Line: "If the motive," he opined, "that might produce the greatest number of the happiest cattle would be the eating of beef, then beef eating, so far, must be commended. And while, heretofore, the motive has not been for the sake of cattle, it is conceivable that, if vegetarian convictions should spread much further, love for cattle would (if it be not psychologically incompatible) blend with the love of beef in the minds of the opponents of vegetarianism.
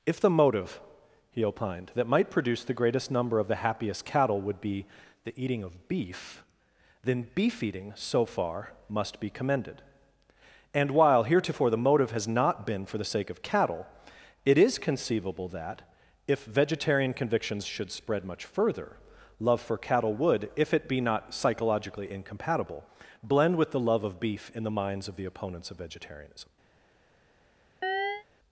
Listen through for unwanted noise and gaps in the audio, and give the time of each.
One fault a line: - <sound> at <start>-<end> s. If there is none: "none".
- chirp at 27.8-28.2 s